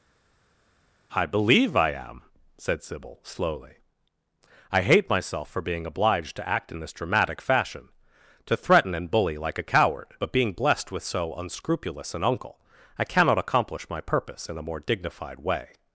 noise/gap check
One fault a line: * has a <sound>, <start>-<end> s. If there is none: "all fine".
all fine